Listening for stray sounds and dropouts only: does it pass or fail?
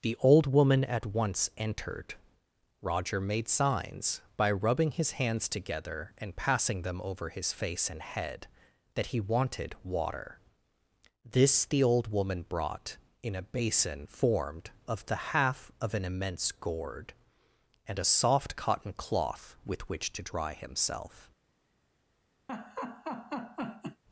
fail